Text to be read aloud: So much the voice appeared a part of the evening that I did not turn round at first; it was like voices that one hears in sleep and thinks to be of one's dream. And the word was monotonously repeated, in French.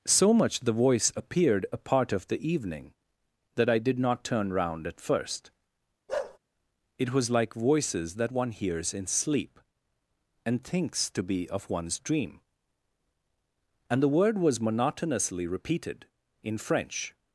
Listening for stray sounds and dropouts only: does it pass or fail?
fail